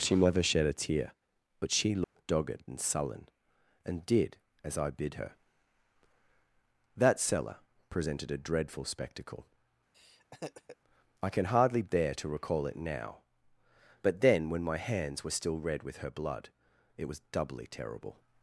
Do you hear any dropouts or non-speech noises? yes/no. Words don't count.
yes